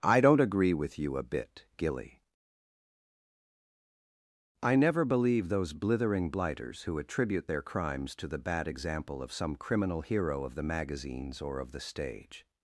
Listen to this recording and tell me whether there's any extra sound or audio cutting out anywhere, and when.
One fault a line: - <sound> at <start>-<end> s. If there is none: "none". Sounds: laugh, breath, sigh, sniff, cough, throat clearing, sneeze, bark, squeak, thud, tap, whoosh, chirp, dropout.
none